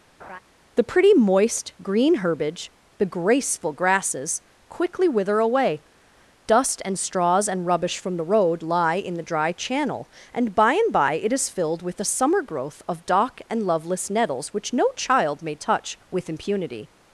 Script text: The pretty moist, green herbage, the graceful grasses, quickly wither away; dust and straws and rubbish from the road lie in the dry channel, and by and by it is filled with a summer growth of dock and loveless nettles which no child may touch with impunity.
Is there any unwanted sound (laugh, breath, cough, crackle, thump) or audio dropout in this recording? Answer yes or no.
yes